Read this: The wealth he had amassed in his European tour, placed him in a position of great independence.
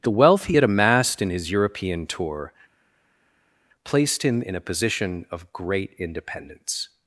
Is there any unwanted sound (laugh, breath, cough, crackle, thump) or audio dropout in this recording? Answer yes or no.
no